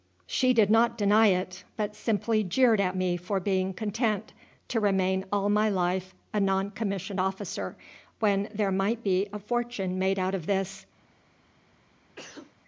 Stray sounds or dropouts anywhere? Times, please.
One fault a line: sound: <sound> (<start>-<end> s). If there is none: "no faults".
sound: sneeze (12.2-12.5 s)